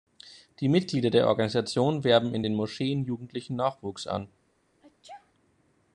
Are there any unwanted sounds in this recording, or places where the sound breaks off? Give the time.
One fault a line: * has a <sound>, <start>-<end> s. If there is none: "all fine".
* has a sneeze, 4.8-5.3 s